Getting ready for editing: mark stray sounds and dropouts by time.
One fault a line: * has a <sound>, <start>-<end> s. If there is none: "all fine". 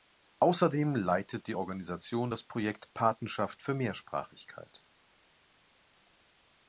all fine